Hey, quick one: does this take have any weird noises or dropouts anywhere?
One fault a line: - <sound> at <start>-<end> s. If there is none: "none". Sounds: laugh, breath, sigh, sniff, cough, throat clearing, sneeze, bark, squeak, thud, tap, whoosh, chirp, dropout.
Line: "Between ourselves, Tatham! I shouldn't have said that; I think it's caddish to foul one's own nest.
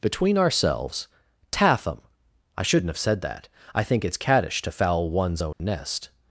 - dropout at 5.5-5.6 s